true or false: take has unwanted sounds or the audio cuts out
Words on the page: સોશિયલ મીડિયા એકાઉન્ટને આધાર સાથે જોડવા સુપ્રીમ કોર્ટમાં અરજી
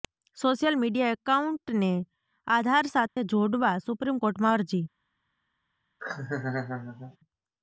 true